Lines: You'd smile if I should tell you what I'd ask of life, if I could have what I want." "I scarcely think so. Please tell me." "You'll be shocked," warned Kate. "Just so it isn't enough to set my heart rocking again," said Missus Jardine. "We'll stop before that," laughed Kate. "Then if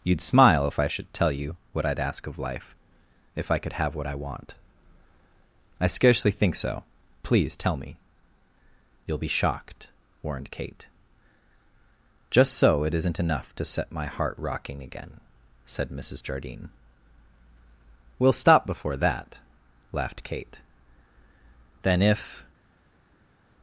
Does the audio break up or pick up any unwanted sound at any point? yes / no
no